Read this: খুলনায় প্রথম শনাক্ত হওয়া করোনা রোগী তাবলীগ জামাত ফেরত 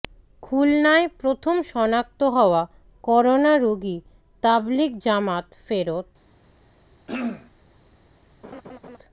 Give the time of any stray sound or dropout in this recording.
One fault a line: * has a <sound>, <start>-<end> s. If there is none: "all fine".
* has a throat clearing, 7.1-7.5 s
* has a laugh, 8.4-9.0 s